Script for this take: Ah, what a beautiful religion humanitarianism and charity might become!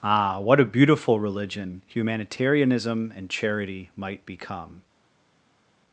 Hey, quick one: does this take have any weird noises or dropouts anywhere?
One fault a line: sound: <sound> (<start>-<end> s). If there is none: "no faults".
no faults